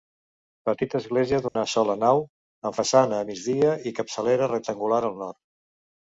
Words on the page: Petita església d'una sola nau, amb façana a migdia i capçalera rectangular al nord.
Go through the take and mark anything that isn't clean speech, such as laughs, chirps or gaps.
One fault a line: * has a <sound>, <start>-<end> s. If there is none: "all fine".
* has a dropout, 1.5-1.6 s